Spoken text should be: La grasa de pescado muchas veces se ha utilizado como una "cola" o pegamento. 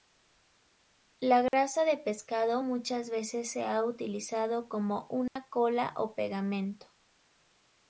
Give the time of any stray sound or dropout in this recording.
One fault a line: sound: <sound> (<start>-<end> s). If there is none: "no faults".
sound: dropout (1.5-1.5 s)
sound: dropout (5.3-5.4 s)